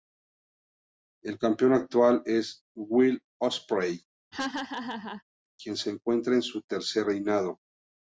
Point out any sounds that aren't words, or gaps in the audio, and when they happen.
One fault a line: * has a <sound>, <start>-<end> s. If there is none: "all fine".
* has a laugh, 4.3-5.2 s